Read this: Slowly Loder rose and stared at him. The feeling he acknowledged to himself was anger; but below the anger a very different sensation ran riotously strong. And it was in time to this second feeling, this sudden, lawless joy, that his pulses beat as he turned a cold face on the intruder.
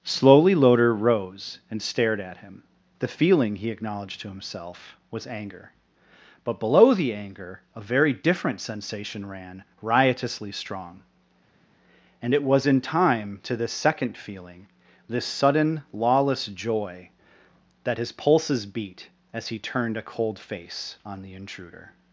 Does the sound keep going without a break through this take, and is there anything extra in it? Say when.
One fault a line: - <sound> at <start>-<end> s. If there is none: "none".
none